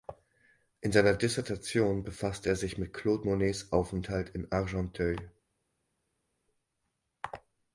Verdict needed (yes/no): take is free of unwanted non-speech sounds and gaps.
yes